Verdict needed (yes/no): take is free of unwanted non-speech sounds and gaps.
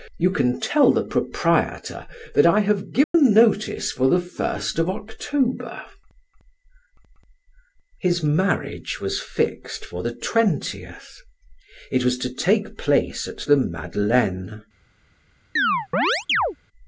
no